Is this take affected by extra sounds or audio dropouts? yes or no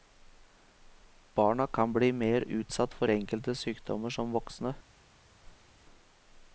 yes